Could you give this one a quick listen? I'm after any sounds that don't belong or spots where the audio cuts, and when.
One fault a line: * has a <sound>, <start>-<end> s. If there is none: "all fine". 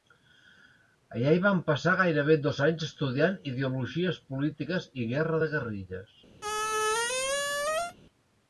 * has a squeak, 6.4-8.0 s